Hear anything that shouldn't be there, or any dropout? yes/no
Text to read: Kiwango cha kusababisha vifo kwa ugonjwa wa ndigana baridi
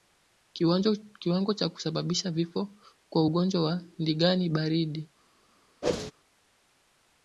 yes